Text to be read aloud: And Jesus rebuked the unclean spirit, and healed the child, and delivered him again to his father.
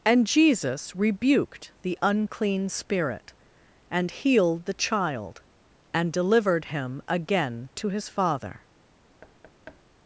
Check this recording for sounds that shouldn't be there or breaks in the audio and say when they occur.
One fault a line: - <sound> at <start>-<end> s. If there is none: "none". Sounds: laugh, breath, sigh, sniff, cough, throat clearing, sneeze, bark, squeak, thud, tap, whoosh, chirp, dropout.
- thud at 9.2-9.8 s